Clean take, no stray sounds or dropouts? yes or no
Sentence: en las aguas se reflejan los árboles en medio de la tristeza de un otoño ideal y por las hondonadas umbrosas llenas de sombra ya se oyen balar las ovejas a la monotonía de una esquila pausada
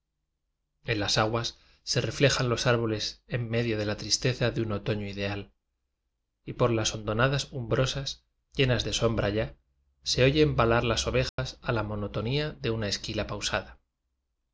no